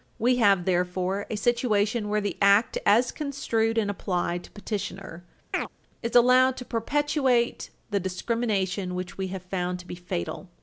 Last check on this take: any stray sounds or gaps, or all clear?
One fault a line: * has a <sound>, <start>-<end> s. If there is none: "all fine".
* has a chirp, 5.5-5.7 s